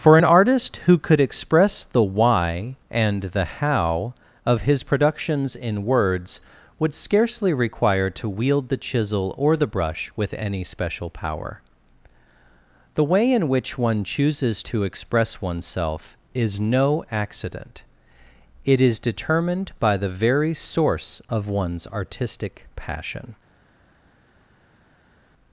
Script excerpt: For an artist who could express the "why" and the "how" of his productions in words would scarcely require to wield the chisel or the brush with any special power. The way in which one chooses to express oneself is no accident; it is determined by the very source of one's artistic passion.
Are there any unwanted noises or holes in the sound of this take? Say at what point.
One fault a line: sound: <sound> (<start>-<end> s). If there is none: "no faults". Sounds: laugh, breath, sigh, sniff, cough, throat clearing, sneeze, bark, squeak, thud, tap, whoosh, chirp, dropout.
no faults